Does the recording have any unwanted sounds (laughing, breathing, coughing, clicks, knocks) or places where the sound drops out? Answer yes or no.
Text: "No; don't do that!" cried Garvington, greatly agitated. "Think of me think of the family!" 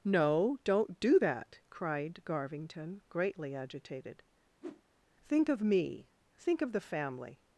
yes